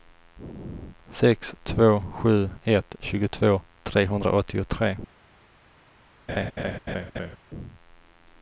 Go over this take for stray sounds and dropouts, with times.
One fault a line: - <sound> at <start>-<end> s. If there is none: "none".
- laugh at 6.3-7.4 s